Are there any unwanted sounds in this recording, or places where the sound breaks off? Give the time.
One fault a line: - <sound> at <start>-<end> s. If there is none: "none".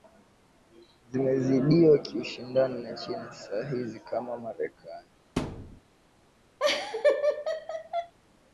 - thud at 5.4-5.8 s
- laugh at 6.6-8.1 s